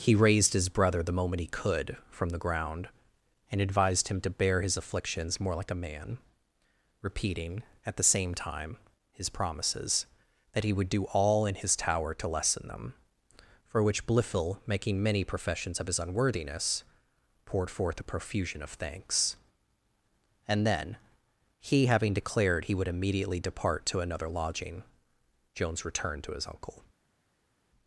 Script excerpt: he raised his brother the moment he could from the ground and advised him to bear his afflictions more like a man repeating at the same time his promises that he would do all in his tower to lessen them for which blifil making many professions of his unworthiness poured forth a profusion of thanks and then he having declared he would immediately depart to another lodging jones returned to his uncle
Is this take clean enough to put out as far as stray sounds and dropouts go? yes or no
yes